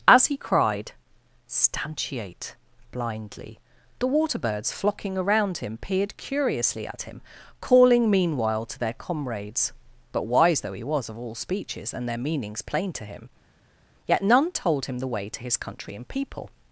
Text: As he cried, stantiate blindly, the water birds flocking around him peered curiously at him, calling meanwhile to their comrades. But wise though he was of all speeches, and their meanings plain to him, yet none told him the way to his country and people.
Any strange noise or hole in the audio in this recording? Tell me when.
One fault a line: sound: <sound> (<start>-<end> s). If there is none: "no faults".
no faults